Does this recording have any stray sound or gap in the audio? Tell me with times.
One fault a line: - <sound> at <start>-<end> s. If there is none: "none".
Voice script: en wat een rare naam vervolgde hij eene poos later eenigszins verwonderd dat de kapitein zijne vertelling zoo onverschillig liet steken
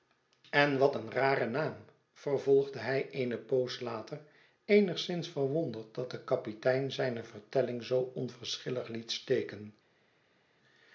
none